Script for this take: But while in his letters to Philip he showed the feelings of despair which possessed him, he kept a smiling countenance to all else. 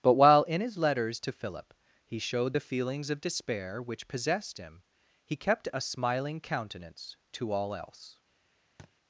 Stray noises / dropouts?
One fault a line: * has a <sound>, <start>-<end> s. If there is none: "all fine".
* has a thud, 8.8-8.9 s